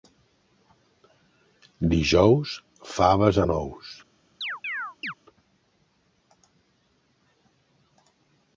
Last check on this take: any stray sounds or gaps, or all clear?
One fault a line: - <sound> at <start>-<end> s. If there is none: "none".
- chirp at 4.4-5.1 s